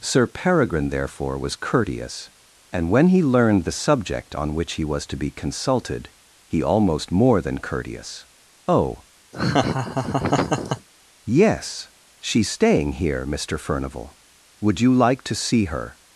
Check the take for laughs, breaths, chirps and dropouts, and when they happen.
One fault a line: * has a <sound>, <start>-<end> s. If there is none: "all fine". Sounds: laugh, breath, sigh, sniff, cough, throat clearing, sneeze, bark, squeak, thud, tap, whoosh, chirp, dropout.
* has a laugh, 9.3-10.9 s